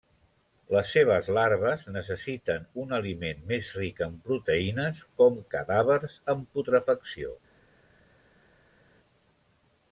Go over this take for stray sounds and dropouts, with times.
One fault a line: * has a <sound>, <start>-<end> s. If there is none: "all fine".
all fine